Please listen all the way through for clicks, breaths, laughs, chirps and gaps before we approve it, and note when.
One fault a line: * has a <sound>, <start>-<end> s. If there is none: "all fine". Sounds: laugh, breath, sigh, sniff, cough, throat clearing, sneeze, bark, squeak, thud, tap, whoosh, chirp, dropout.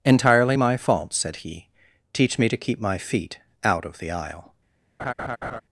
* has a laugh, 5.0-5.6 s